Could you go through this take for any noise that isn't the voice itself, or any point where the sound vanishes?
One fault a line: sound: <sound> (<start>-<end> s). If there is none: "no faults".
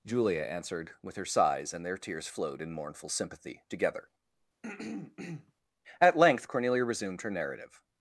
sound: throat clearing (4.6-5.5 s)